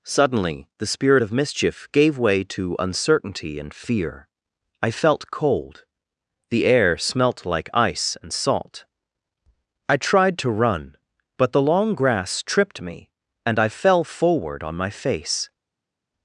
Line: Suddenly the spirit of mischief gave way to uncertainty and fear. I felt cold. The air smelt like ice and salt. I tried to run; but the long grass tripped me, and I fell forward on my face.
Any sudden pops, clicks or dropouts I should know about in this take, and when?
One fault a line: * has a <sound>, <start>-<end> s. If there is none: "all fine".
all fine